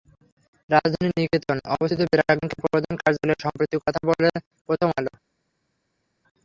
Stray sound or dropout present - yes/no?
no